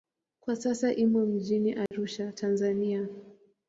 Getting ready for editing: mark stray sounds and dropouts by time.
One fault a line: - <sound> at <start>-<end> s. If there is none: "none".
- dropout at 1.9-1.9 s